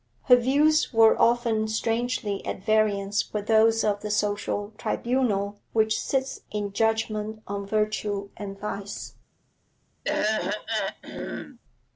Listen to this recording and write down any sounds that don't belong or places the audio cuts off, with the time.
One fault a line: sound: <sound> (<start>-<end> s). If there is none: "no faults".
sound: throat clearing (10.0-11.6 s)